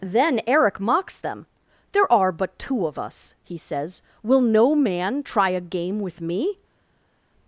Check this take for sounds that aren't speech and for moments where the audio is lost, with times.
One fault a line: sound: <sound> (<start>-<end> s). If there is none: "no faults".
no faults